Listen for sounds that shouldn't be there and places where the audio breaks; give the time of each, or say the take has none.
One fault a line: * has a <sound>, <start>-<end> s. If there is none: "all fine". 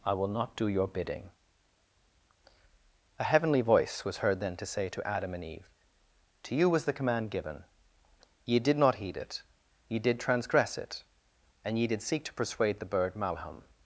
all fine